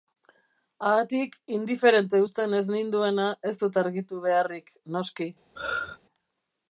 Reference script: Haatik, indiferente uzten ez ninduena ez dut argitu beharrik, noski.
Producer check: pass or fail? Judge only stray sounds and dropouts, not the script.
fail